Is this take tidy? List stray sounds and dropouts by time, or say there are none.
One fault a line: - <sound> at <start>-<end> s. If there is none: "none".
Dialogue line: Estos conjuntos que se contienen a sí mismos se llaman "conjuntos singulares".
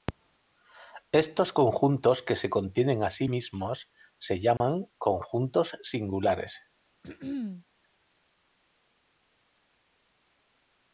- dropout at 4.6-4.6 s
- throat clearing at 7.0-7.6 s